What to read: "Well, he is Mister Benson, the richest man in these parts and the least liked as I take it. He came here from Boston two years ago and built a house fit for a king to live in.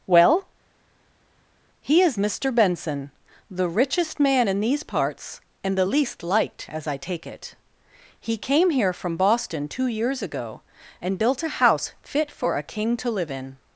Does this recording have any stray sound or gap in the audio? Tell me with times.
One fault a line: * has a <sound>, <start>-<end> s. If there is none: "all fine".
all fine